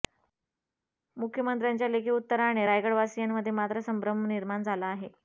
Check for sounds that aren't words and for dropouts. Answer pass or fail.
pass